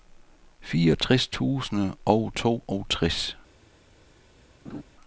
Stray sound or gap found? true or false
true